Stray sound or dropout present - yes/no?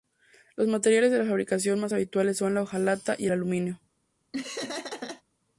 yes